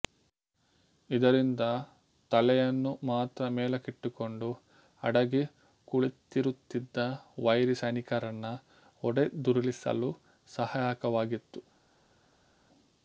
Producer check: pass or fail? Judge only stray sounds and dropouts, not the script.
pass